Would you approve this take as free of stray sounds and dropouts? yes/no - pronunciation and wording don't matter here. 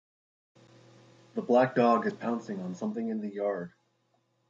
yes